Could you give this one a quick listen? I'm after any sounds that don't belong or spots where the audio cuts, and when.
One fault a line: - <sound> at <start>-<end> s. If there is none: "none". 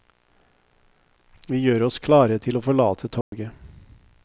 - dropout at 3.2-3.3 s